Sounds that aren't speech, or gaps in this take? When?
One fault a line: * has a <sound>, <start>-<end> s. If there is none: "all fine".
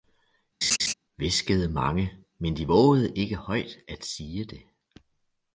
* has a laugh, 0.6-0.9 s